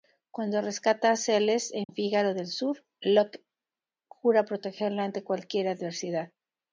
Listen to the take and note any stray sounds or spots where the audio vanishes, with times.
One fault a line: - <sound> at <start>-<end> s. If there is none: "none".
- dropout at 1.8-1.9 s